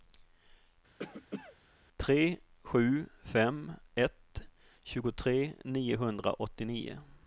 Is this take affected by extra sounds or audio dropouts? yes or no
yes